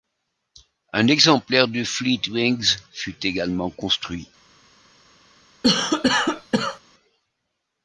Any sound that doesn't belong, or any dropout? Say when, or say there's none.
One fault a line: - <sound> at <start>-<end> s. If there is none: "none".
- cough at 5.6-6.8 s